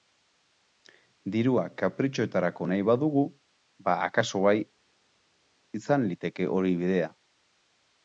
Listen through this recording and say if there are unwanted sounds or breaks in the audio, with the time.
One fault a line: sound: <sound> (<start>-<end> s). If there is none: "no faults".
no faults